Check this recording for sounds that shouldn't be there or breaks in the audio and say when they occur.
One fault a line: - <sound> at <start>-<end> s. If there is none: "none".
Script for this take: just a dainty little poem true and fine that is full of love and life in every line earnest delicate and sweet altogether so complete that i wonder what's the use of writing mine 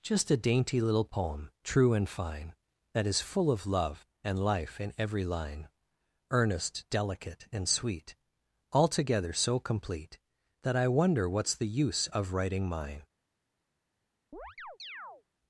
- chirp at 14.3-15.2 s